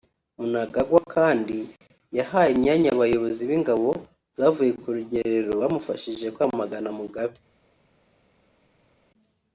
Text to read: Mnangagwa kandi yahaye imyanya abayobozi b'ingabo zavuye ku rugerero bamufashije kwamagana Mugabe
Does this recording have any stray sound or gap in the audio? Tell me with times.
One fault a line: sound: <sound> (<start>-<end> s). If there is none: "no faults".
no faults